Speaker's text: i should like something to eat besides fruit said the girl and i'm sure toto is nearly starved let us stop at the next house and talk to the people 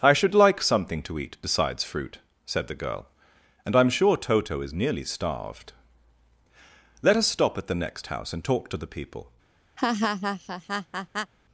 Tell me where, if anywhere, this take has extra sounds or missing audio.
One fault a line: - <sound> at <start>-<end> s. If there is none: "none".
- laugh at 9.8-11.3 s